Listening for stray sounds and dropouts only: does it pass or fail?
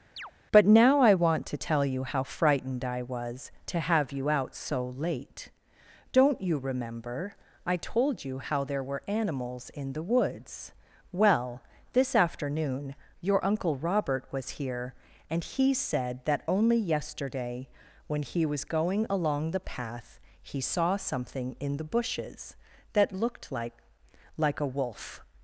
fail